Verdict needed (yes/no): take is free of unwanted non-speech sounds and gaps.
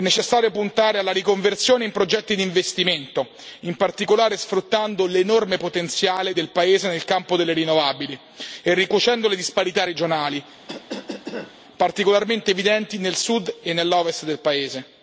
no